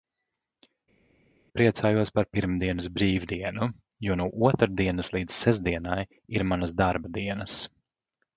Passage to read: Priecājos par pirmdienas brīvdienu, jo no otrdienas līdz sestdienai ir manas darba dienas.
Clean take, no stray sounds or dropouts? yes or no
yes